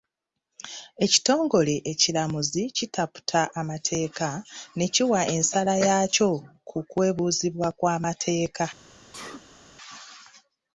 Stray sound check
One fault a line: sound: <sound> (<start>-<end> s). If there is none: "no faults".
sound: sneeze (9.1-9.6 s)